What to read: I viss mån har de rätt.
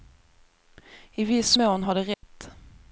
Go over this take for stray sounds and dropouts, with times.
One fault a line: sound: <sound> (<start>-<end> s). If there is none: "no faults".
sound: dropout (2.1-2.2 s)